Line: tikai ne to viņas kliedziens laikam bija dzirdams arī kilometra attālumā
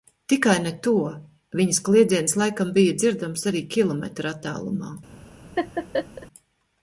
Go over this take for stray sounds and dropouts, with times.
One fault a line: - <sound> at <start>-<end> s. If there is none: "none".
- laugh at 5.6-6.3 s